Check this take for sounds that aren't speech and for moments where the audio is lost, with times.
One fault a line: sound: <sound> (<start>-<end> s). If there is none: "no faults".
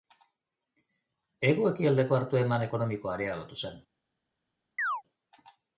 sound: chirp (4.8-5.0 s)